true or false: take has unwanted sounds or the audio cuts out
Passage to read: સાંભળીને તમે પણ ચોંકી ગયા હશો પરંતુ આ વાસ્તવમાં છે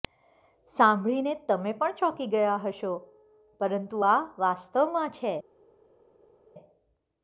false